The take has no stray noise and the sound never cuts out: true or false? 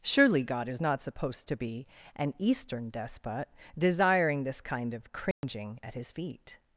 false